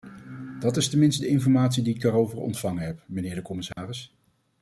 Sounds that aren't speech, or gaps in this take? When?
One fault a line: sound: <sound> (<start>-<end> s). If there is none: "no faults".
sound: dropout (3.7-3.8 s)